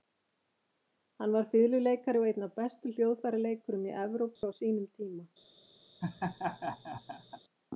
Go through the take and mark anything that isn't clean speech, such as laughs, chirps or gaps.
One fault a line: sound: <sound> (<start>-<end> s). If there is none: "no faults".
sound: dropout (4.4-4.4 s)
sound: laugh (6.0-7.4 s)